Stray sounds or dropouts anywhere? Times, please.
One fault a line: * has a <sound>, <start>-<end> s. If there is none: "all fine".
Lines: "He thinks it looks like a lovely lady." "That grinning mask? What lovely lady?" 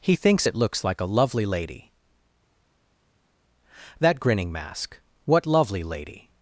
all fine